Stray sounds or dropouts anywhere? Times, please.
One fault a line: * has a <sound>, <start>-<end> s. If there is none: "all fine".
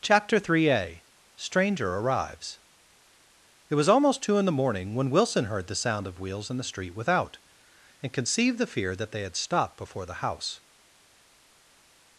all fine